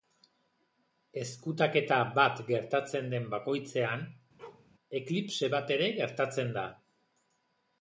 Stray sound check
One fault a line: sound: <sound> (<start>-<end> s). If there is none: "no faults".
sound: bark (4.4-4.7 s)